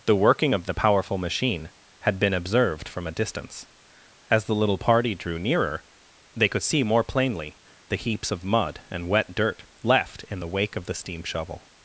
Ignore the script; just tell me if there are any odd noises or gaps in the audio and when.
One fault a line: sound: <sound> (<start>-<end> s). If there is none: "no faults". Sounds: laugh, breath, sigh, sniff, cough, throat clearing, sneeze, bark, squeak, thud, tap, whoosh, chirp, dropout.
no faults